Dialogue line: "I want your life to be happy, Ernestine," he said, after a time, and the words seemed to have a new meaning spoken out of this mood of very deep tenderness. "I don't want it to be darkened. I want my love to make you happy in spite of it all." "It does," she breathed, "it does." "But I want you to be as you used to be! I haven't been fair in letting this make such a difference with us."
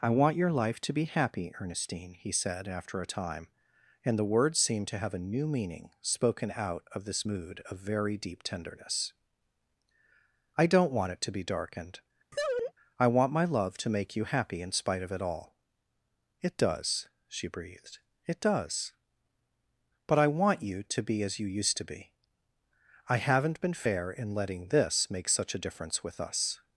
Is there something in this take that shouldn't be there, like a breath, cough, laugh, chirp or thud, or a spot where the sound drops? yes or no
yes